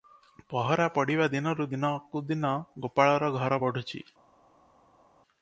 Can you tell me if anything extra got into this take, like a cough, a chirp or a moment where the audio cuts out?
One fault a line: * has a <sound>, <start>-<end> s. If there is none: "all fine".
all fine